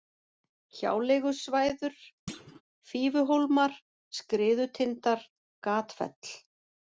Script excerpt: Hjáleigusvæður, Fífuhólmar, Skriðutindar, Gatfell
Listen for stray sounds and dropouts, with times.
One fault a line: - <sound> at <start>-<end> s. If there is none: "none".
- thud at 2.3-2.6 s